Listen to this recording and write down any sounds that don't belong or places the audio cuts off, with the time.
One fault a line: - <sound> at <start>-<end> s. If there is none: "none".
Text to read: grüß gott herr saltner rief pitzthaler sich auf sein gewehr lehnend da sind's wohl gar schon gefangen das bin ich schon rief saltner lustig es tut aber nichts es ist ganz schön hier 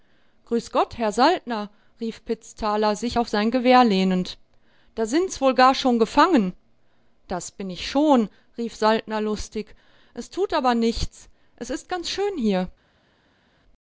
none